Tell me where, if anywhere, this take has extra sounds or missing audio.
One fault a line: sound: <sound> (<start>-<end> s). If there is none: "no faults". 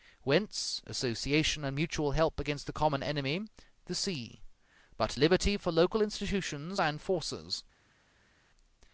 no faults